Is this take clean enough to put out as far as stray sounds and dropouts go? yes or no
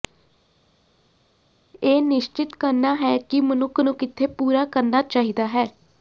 yes